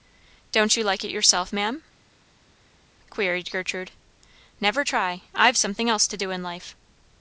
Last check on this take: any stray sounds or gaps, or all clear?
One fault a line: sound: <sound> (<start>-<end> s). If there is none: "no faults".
no faults